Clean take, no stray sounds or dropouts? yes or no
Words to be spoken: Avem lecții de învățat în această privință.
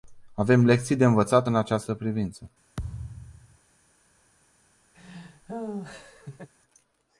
no